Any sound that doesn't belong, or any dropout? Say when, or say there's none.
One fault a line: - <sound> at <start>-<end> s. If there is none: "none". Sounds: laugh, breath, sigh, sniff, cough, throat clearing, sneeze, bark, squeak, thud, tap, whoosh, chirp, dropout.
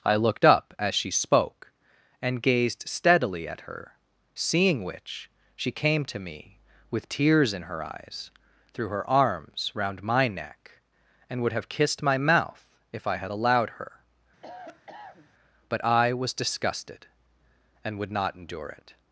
- cough at 14.4-15.3 s